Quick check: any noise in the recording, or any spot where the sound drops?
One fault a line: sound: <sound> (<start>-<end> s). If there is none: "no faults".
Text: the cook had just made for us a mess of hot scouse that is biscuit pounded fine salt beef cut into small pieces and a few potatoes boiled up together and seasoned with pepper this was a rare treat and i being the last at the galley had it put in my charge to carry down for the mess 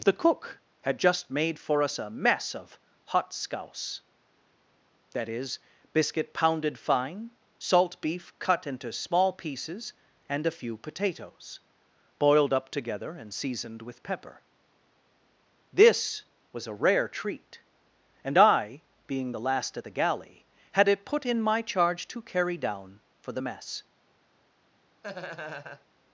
sound: laugh (25.0-25.9 s)